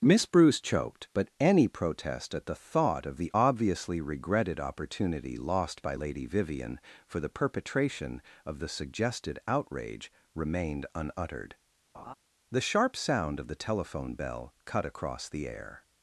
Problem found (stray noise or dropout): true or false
true